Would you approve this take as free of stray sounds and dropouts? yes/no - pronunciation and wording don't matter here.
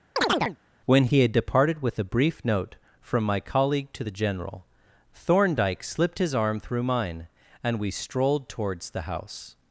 no